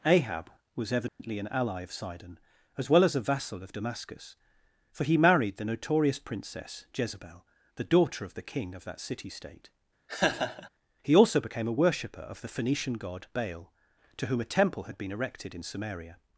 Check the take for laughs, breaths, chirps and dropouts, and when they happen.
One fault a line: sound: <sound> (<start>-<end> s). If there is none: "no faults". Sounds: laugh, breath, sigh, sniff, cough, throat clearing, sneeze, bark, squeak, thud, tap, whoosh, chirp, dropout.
sound: dropout (1.1-1.2 s)
sound: laugh (10.1-10.7 s)